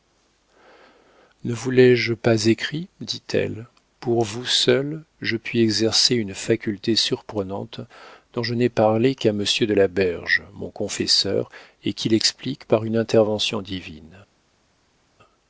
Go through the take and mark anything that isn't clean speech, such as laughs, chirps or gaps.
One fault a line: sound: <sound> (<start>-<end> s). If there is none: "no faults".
no faults